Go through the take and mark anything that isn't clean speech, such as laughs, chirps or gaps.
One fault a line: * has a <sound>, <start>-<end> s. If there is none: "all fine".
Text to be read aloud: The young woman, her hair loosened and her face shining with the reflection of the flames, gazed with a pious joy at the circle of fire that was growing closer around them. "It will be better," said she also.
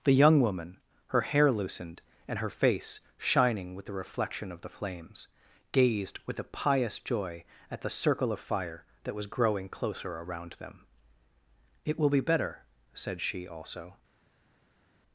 all fine